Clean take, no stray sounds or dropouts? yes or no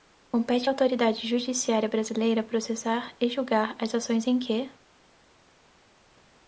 yes